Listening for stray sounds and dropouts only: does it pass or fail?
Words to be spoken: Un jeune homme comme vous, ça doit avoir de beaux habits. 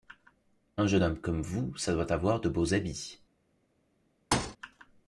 fail